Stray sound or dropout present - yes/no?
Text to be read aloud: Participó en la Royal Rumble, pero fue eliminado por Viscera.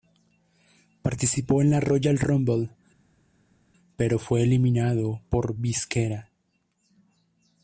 no